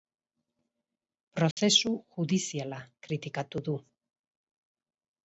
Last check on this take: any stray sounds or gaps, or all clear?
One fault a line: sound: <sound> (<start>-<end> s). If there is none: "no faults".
sound: dropout (1.5-1.6 s)